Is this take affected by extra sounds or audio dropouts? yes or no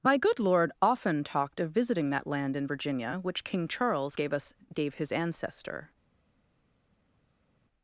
no